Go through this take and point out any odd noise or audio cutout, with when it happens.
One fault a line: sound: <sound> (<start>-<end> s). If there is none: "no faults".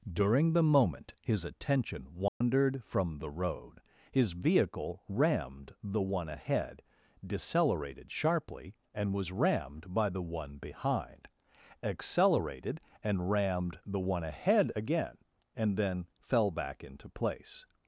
sound: dropout (2.3-2.4 s)